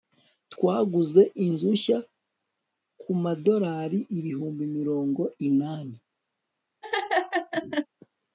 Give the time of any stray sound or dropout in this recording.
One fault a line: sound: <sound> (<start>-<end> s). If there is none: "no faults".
sound: laugh (6.8-7.9 s)